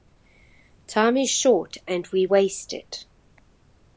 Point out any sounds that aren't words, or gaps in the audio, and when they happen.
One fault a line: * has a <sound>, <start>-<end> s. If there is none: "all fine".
all fine